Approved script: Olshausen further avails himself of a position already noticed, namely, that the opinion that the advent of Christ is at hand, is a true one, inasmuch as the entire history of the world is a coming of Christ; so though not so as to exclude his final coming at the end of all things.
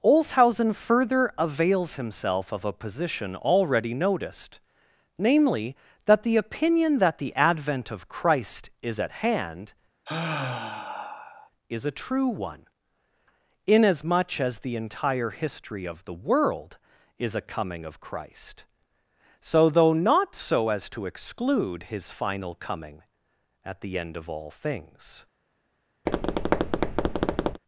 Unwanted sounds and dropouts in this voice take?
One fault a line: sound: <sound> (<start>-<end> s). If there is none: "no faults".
sound: sigh (10.1-11.5 s)
sound: tap (26.1-27.6 s)